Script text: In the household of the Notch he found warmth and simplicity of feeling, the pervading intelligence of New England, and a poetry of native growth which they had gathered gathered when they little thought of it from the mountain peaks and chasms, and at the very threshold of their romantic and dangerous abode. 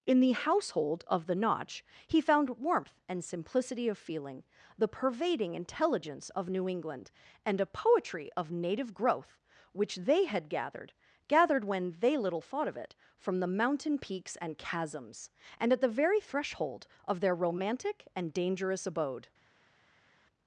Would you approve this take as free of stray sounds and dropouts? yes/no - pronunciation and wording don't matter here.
yes